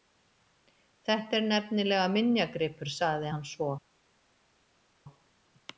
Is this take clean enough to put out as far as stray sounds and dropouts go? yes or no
yes